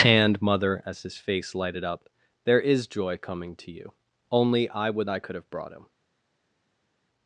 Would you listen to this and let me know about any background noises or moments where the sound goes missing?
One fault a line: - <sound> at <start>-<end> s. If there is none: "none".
none